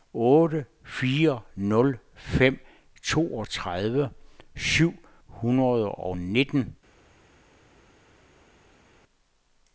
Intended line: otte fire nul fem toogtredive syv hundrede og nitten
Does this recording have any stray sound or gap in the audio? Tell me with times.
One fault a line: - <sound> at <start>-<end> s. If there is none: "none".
none